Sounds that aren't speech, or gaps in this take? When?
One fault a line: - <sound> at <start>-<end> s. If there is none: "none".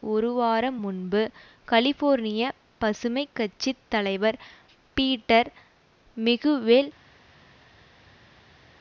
none